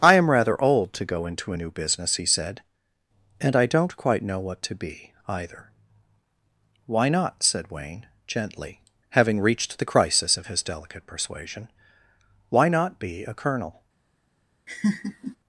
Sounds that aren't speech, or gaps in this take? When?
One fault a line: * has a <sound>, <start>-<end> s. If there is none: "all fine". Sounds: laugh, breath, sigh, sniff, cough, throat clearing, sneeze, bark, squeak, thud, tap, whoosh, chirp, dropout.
* has a laugh, 14.7-15.4 s